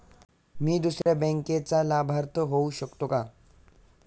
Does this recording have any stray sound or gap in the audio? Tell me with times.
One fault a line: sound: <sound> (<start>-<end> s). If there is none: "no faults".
sound: dropout (1.0-1.1 s)